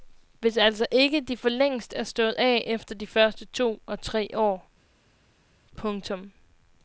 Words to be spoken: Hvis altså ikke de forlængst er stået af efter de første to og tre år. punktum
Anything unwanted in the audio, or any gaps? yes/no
no